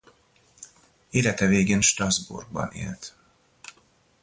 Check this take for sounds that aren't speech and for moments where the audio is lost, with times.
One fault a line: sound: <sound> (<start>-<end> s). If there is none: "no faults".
no faults